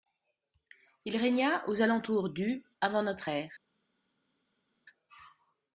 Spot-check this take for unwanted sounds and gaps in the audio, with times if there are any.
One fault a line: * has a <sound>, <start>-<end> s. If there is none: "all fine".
all fine